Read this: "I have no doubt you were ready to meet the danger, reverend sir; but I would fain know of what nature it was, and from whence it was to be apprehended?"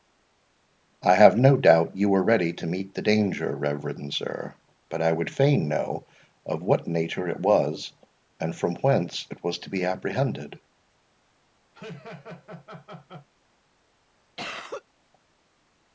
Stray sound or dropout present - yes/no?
yes